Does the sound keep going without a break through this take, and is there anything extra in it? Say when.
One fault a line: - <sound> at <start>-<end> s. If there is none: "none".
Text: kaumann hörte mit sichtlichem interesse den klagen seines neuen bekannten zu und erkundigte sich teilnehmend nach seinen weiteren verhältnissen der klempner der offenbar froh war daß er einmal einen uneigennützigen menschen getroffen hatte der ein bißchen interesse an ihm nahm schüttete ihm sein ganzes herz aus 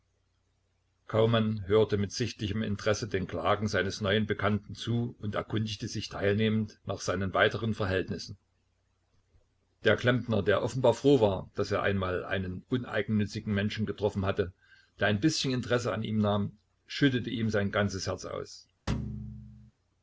- thud at 18.9-19.7 s